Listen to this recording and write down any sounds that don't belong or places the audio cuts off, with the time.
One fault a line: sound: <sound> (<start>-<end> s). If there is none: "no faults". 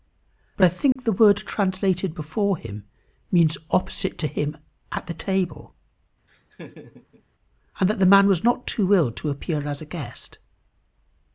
sound: dropout (0.9-1.0 s)
sound: laugh (6.3-7.2 s)